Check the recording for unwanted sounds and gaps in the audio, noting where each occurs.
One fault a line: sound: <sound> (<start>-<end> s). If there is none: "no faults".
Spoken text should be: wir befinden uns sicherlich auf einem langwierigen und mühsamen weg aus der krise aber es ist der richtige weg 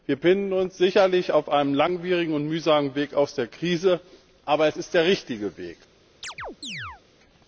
sound: chirp (6.2-7.0 s)